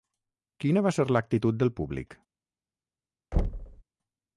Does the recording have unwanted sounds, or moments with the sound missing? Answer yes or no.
yes